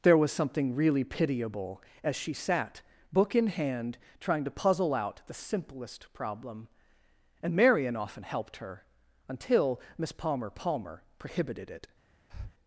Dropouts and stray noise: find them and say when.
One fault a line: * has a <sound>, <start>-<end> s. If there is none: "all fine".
* has a breath, 12.3-12.5 s